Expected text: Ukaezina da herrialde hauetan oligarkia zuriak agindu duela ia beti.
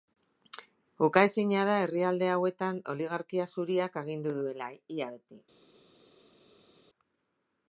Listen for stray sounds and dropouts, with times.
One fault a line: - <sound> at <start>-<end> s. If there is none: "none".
none